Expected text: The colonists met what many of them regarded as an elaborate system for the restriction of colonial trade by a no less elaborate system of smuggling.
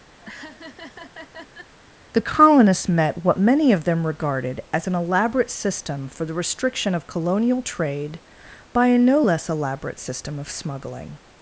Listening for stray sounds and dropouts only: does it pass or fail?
fail